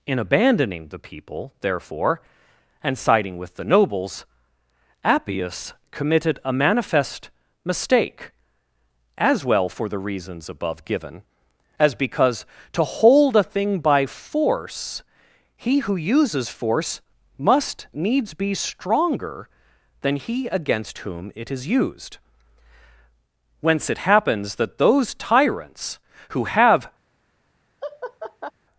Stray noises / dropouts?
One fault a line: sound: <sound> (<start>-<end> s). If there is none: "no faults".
sound: laugh (27.8-28.5 s)